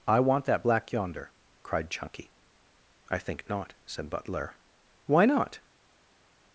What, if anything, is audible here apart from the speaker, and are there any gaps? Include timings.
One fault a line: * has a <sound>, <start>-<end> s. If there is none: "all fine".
all fine